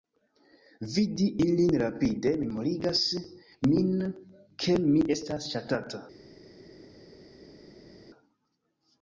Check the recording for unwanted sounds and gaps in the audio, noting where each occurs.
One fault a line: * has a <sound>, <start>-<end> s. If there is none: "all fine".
all fine